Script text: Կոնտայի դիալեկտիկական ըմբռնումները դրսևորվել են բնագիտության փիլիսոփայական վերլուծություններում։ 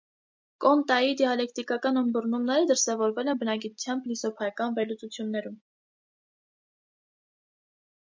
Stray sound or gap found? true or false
false